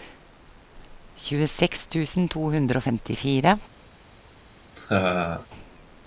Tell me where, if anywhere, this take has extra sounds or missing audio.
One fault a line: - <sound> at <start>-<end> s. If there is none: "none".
- laugh at 4.8-5.5 s